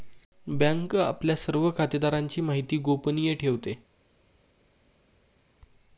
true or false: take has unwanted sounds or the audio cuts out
false